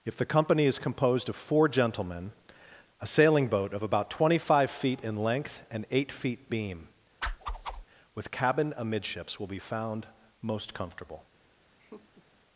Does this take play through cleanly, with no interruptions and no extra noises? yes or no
no